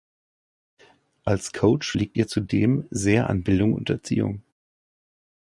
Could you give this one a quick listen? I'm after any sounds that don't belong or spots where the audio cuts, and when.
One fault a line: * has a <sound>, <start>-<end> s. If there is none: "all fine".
all fine